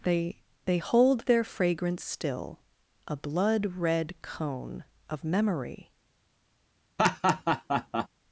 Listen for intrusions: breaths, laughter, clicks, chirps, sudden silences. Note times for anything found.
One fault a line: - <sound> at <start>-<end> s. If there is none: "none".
- laugh at 7.0-8.1 s